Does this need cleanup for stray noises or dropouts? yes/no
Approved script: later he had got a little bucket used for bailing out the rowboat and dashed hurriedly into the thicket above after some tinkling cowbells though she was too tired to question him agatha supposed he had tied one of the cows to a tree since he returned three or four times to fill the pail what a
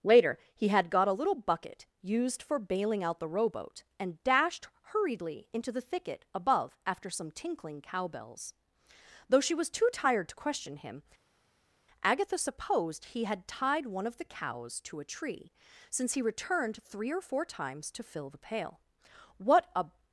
no